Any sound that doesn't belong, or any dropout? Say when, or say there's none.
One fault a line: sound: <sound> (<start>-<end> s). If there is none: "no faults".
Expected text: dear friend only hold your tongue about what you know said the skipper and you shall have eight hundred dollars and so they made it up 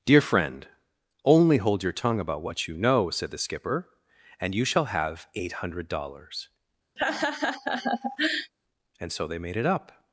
sound: laugh (7.0-8.5 s)